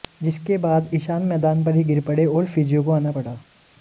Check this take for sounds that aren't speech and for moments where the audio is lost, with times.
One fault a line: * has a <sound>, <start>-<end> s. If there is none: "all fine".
all fine